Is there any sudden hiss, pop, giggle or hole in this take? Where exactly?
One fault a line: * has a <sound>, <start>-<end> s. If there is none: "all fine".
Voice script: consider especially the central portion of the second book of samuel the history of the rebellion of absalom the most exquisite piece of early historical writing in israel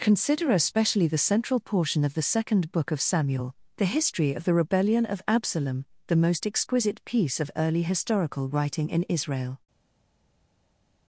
all fine